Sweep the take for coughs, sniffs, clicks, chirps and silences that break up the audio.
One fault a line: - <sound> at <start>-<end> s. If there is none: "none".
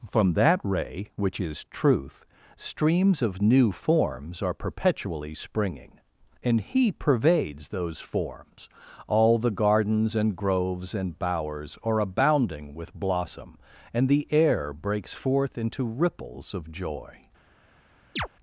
- chirp at 18.2-18.3 s